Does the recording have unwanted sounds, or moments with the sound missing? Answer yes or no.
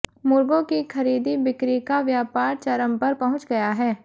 no